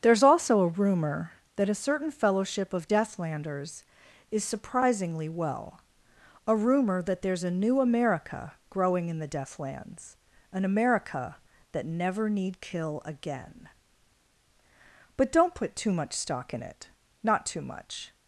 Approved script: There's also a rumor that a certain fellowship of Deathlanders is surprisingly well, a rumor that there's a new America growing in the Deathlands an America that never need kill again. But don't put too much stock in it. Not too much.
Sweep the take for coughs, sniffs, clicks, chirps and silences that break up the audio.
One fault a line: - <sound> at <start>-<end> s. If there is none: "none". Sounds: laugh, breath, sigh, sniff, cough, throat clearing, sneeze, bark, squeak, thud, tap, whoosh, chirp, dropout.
none